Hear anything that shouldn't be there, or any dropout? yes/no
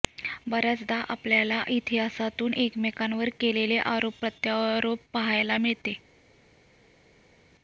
no